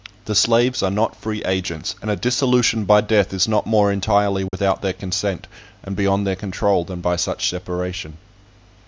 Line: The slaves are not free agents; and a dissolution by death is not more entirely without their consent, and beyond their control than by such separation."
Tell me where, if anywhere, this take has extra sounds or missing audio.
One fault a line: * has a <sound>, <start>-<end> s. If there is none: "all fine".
* has a dropout, 4.5-4.5 s